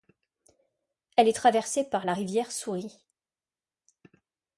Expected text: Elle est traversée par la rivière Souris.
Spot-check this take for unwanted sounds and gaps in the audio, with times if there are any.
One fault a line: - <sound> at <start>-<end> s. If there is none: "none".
none